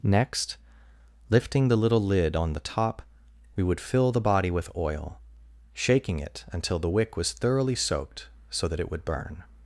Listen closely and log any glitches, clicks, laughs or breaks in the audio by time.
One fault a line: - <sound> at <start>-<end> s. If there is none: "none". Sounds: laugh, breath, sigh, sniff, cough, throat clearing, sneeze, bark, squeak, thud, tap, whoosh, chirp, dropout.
none